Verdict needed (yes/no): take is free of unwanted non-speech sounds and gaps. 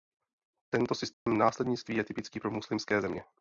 no